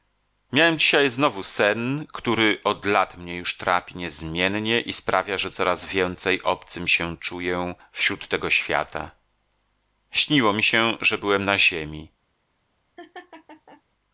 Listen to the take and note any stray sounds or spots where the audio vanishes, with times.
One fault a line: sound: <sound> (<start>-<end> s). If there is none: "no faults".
sound: laugh (13.0-13.8 s)